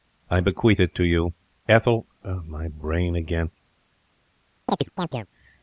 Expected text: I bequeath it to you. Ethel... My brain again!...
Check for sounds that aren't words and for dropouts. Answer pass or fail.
fail